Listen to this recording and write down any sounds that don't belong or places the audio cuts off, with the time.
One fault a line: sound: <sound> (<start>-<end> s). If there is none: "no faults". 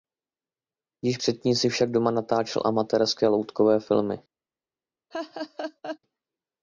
sound: laugh (5.1-6.0 s)